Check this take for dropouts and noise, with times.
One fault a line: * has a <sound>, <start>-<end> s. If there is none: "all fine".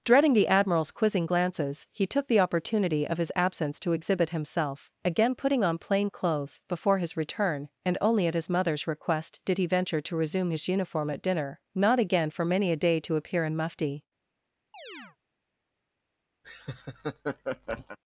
* has a chirp, 14.7-15.2 s
* has a laugh, 16.4-18.0 s